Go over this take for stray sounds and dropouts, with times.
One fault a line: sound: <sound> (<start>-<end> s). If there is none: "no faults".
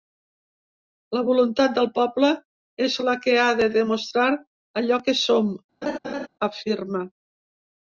sound: laugh (5.8-6.3 s)